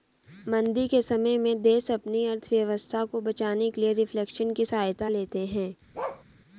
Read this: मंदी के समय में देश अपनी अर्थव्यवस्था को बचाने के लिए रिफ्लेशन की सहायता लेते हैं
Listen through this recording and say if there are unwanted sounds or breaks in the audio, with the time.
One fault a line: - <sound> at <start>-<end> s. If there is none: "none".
- bark at 5.9-6.2 s